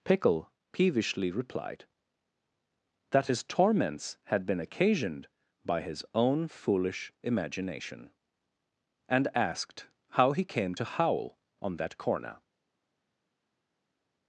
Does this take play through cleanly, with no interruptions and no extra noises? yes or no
yes